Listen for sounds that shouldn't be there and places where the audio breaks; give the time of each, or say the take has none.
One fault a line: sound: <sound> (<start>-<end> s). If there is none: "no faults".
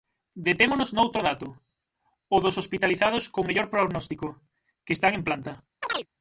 sound: chirp (5.8-6.1 s)